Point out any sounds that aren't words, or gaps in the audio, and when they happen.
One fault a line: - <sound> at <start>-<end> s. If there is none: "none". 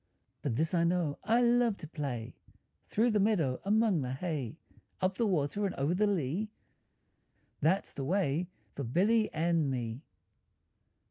none